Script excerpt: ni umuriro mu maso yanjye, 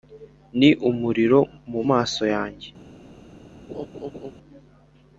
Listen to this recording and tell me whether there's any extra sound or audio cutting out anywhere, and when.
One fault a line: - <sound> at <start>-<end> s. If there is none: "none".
- laugh at 3.7-4.3 s